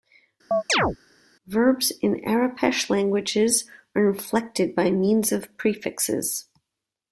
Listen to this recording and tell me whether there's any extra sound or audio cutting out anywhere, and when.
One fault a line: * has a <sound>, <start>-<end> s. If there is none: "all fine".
* has a chirp, 0.5-1.0 s